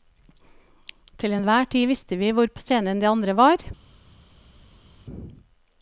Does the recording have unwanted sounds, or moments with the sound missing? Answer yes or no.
no